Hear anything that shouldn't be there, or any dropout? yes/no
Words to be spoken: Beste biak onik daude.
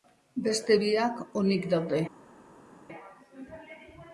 no